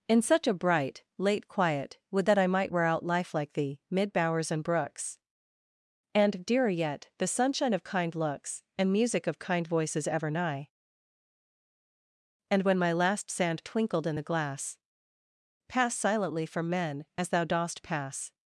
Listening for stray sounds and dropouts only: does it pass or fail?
pass